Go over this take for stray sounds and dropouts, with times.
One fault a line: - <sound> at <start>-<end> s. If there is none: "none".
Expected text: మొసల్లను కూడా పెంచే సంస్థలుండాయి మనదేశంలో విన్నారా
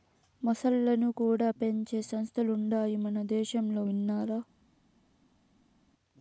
none